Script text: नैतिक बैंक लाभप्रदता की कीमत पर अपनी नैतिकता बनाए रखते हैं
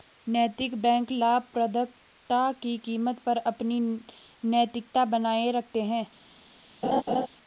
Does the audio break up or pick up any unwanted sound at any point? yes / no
yes